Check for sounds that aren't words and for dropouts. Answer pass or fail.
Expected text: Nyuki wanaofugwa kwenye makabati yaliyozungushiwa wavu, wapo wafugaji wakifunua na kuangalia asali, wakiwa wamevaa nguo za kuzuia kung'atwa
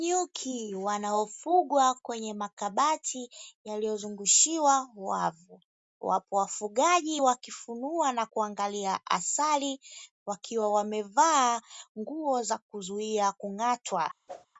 fail